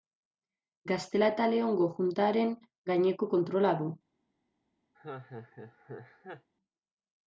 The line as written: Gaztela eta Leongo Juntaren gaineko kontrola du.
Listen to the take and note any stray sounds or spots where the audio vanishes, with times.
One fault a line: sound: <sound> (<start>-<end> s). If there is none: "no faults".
sound: laugh (4.9-6.5 s)